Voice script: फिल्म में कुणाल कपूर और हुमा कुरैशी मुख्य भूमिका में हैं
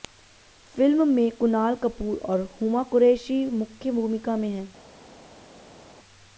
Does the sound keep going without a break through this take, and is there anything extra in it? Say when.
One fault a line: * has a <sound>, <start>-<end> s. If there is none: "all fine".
all fine